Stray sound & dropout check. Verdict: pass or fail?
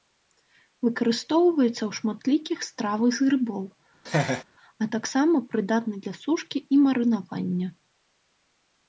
fail